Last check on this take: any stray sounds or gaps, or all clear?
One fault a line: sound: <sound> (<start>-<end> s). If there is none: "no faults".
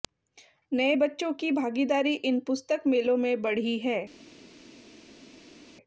no faults